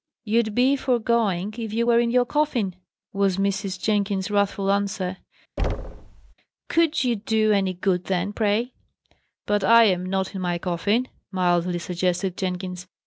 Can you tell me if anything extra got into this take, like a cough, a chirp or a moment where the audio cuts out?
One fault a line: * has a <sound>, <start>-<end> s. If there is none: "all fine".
* has a thud, 5.6-6.3 s